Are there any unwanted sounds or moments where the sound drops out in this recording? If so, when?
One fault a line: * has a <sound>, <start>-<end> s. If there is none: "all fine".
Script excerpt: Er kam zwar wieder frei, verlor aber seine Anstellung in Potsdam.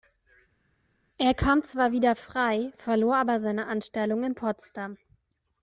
all fine